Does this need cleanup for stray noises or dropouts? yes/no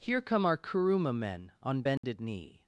yes